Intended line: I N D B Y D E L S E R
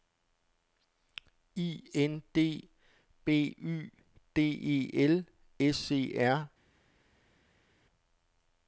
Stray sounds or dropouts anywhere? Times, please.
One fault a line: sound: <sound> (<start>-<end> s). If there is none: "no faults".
no faults